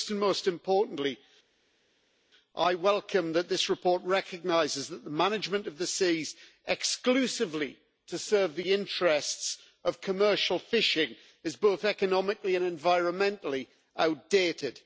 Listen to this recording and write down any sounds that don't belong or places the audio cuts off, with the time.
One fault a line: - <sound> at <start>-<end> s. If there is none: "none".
none